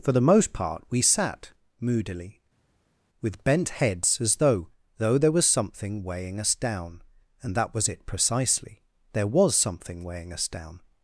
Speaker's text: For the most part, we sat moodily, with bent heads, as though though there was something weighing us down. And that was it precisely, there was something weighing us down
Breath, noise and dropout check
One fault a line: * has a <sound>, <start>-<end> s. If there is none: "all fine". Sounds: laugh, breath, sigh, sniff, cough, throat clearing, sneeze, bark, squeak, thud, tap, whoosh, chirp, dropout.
all fine